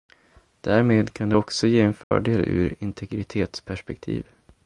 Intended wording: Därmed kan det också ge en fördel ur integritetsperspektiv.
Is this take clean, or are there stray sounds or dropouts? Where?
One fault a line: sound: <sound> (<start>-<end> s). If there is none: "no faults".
sound: dropout (2.0-2.1 s)